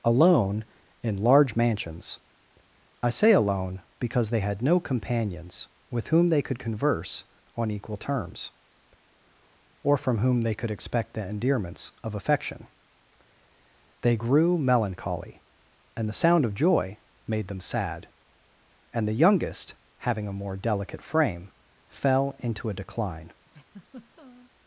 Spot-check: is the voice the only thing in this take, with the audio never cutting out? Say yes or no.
no